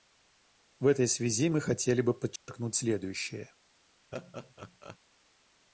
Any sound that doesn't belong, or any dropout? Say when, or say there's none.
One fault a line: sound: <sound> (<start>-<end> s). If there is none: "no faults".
sound: dropout (2.4-2.5 s)
sound: laugh (4.1-5.0 s)